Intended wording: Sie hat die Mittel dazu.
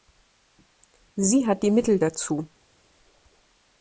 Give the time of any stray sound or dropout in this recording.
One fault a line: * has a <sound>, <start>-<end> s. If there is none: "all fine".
all fine